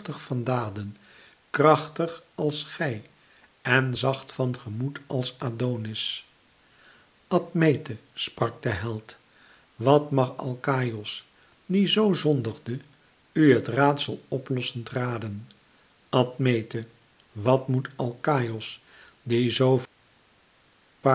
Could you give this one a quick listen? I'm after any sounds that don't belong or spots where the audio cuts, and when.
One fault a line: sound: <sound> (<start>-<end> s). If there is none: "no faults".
no faults